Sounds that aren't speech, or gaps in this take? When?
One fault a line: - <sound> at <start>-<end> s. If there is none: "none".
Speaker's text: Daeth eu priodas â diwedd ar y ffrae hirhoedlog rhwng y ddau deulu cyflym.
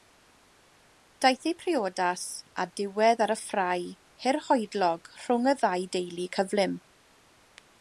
none